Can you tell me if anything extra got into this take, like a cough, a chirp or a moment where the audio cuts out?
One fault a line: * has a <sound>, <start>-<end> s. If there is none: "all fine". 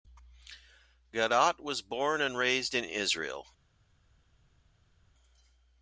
all fine